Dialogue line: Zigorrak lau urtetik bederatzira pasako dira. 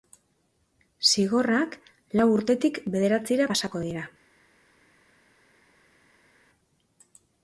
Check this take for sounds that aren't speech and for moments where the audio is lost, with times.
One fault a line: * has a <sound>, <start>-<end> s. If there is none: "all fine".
all fine